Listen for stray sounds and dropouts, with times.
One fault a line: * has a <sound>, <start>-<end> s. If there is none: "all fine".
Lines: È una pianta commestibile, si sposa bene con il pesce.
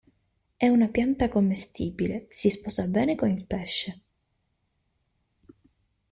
all fine